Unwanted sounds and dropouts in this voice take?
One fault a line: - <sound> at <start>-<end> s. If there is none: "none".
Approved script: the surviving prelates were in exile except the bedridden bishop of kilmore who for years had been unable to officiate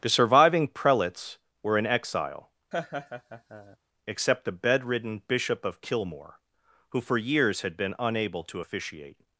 - laugh at 2.7-3.8 s